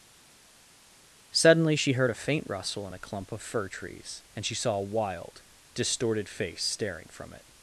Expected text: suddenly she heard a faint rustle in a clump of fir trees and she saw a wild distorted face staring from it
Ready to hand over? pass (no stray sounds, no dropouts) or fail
pass